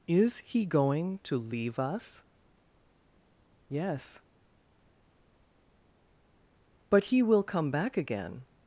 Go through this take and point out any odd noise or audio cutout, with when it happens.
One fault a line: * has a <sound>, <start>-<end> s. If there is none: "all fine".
all fine